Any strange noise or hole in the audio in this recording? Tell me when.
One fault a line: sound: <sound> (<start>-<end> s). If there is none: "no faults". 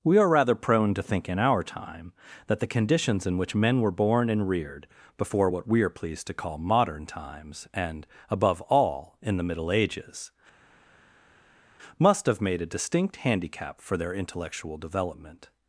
no faults